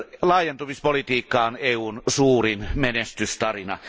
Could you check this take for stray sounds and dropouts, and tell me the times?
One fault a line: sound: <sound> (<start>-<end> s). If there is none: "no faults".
no faults